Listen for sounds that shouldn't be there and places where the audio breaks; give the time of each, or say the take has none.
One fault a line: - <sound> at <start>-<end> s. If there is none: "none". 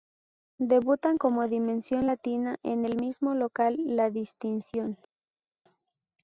none